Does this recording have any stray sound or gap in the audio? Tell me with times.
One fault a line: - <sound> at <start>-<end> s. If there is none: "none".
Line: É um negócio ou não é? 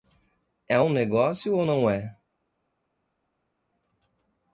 none